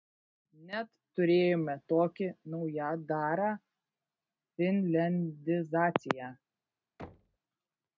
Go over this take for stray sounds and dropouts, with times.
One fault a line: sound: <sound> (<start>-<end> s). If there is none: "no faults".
sound: thud (7.0-7.4 s)